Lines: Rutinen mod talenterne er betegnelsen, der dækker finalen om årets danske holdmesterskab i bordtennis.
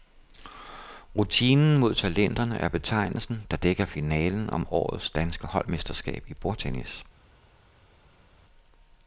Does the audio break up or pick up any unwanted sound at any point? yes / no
no